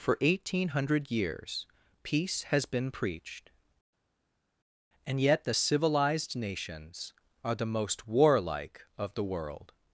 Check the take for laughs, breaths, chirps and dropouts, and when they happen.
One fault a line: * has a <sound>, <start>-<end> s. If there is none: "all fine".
all fine